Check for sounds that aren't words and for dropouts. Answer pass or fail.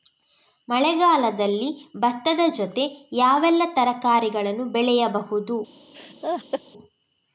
fail